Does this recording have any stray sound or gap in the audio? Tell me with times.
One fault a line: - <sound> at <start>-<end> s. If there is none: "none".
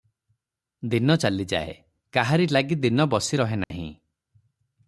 - dropout at 3.6-3.7 s